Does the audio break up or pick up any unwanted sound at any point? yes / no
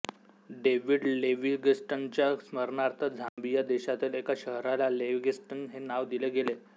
yes